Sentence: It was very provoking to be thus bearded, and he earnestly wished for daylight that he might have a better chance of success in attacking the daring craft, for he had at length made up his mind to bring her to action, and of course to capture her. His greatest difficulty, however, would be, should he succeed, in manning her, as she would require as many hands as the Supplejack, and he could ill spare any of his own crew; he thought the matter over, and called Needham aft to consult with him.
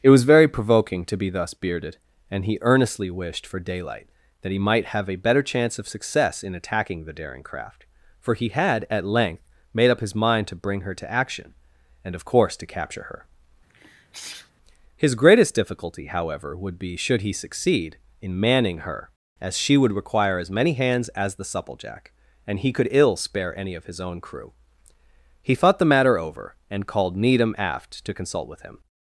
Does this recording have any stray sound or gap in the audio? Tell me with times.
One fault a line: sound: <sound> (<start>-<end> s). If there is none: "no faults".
sound: sneeze (13.7-14.5 s)